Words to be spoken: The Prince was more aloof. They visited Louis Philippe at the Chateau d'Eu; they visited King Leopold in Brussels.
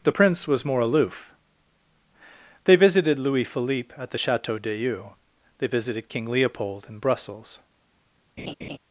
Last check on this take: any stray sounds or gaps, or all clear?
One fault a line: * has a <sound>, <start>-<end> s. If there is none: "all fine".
* has a laugh, 8.4-8.8 s